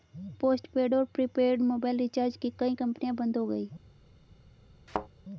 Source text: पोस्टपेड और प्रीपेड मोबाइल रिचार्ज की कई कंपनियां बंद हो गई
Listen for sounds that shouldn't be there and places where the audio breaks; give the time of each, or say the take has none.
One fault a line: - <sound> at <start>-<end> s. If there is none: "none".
- thud at 4.9-5.1 s